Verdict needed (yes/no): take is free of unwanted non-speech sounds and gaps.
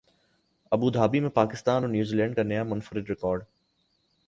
yes